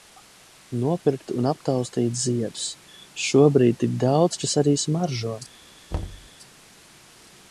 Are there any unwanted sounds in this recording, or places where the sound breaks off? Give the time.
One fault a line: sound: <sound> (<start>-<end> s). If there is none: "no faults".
sound: thud (5.9-6.3 s)